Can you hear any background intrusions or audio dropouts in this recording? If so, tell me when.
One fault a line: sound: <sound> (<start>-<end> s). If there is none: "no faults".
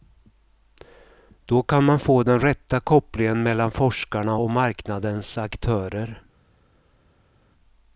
no faults